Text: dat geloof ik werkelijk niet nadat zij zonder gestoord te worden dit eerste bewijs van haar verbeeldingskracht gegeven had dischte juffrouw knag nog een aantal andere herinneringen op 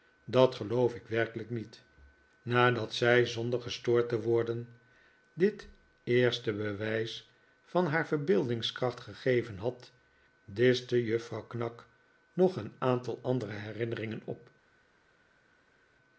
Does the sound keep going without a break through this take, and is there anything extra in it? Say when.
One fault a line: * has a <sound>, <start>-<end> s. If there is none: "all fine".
all fine